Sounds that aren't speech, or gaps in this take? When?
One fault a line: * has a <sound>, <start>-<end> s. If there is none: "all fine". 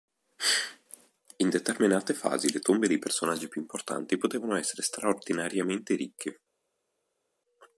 all fine